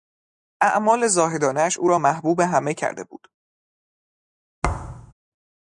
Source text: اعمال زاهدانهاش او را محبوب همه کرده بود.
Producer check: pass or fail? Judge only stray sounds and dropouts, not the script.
fail